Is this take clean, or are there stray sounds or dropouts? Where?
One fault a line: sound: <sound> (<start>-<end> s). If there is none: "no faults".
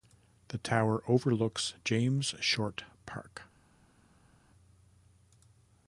no faults